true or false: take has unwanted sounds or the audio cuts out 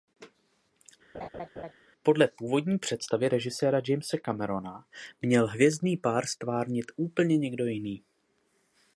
true